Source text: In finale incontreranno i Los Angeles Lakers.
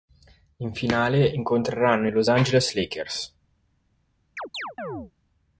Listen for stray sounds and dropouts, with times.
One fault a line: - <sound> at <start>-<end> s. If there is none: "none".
- chirp at 4.4-5.1 s